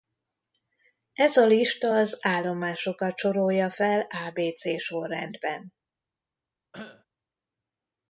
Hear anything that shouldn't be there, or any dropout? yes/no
yes